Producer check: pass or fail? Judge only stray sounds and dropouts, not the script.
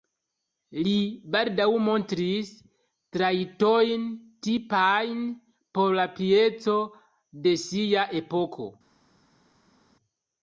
pass